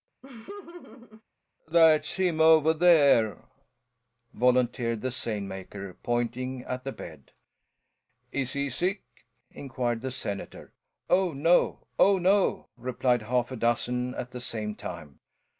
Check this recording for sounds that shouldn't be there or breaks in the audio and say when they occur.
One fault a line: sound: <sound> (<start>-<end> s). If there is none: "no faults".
sound: laugh (0.2-1.2 s)